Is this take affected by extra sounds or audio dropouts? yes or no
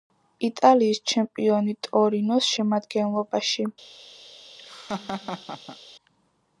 yes